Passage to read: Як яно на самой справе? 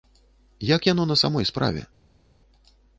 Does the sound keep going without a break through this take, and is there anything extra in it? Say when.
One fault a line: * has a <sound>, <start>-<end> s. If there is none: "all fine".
all fine